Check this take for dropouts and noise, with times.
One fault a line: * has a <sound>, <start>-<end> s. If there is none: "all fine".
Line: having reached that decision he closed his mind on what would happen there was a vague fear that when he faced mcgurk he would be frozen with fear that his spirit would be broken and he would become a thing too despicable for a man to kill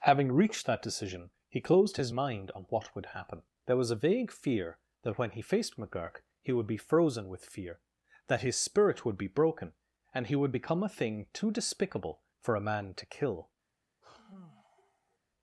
* has a sigh, 14.0-15.2 s